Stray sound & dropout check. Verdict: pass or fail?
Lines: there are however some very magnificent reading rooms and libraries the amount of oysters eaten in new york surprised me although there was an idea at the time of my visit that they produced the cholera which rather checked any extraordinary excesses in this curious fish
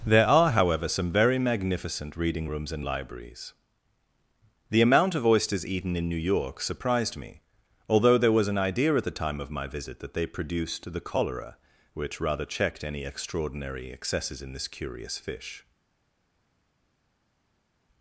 pass